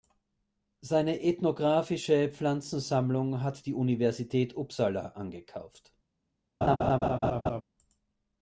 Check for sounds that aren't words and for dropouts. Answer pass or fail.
fail